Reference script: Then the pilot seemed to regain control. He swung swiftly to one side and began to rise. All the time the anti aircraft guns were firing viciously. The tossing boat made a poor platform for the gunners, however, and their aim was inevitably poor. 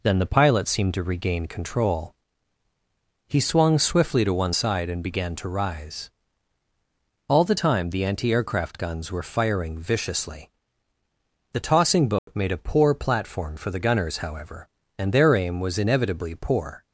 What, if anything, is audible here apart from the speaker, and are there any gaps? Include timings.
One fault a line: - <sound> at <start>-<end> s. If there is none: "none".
- dropout at 12.2-12.3 s